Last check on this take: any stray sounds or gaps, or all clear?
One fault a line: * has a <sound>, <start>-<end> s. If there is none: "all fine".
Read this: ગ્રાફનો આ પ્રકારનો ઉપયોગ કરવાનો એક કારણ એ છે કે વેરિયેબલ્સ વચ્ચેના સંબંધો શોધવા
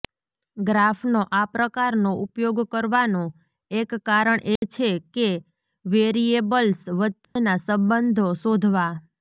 * has a dropout, 4.6-4.6 s
* has a dropout, 7.2-7.4 s